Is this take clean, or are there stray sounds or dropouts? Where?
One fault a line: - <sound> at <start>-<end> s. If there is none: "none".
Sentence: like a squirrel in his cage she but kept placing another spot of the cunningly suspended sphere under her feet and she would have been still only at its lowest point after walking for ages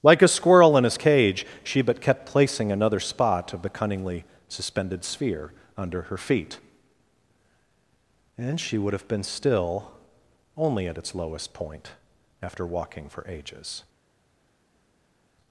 none